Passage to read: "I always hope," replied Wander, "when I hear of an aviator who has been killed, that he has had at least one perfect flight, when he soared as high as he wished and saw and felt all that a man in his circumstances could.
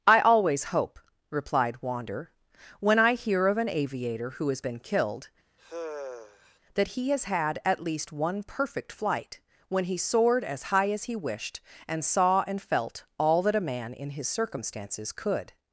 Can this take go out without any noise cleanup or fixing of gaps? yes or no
no